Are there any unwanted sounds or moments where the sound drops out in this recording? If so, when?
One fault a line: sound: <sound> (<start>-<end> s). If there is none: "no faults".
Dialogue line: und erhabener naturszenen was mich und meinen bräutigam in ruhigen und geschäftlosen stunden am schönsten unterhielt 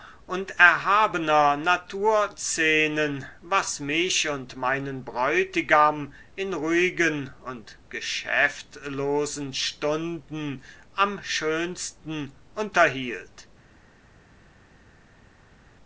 no faults